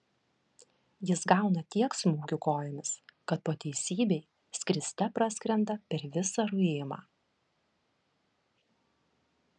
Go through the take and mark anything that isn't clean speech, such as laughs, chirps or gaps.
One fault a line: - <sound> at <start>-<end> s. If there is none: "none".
none